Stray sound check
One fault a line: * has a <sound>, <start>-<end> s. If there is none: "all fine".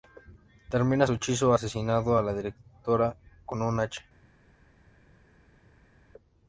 all fine